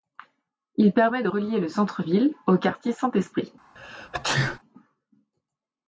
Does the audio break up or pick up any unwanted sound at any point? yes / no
yes